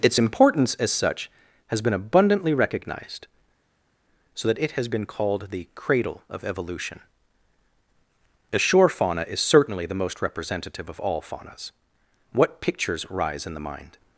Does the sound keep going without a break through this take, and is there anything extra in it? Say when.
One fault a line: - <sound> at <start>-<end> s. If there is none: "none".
none